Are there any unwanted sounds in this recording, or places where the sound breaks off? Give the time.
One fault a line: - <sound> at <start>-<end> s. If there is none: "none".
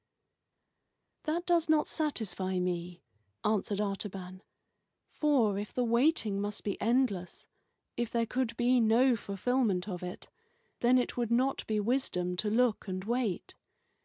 none